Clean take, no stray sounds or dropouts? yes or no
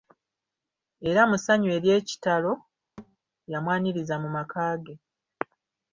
no